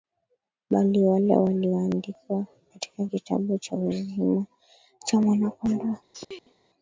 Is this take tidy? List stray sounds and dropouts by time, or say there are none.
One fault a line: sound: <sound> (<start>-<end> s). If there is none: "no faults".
sound: sneeze (6.1-6.5 s)